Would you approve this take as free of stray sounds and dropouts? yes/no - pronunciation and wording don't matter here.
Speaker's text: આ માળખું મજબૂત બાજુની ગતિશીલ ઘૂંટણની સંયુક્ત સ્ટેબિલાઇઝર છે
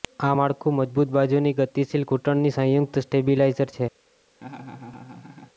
no